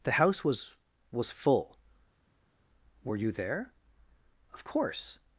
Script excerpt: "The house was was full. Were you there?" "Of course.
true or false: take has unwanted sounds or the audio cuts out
false